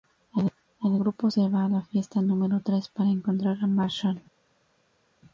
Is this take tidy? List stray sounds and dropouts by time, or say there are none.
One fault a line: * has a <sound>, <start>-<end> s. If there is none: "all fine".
all fine